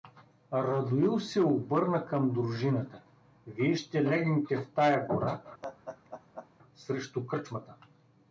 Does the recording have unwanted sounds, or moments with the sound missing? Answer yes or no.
yes